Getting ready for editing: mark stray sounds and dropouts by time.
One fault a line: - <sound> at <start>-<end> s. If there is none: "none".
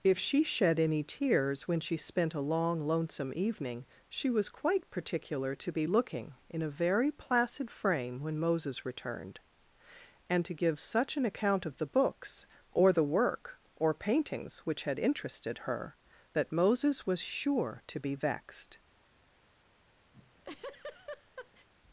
- laugh at 20.1-21.7 s